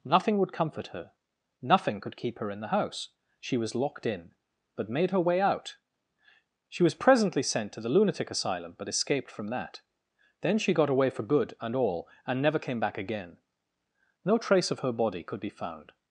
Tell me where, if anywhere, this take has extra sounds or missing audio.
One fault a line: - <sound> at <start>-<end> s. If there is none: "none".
none